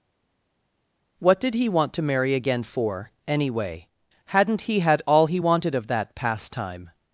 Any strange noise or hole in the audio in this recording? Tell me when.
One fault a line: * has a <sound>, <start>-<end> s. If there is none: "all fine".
all fine